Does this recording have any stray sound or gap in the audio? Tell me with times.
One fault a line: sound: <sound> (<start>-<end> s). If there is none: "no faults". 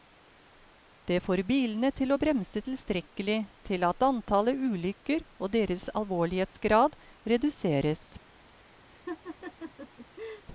sound: laugh (8.9-10.5 s)